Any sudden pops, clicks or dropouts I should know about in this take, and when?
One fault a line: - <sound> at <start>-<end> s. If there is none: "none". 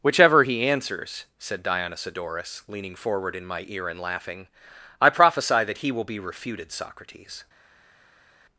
none